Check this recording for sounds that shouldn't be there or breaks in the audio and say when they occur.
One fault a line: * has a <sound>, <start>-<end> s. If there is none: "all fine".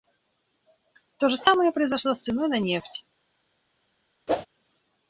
* has a whoosh, 4.3-4.5 s